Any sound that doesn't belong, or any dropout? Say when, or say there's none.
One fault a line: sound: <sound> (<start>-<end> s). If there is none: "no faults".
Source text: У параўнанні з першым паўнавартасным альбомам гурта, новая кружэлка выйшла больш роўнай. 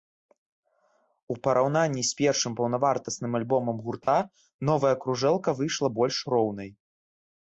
sound: dropout (4.0-4.1 s)